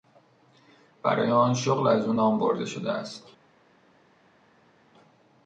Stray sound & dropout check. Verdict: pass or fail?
pass